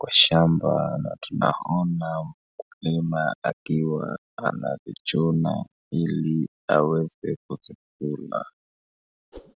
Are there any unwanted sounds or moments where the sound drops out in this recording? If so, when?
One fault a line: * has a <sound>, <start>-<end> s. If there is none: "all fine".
* has a whoosh, 9.3-9.5 s